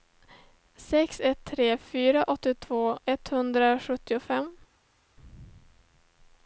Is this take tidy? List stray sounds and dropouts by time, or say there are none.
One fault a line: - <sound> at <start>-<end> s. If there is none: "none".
none